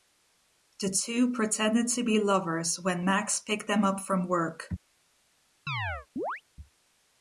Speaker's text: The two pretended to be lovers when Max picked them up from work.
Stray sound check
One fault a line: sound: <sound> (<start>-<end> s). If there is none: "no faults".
sound: chirp (5.7-6.4 s)